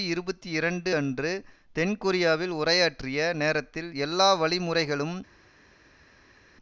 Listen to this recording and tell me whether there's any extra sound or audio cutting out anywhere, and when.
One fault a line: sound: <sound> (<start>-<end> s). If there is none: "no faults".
no faults